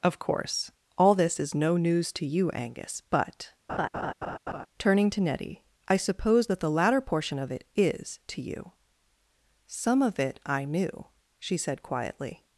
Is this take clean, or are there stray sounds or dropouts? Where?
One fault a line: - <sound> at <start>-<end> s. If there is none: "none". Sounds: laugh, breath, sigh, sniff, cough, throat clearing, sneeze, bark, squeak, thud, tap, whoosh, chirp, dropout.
- laugh at 3.7-4.7 s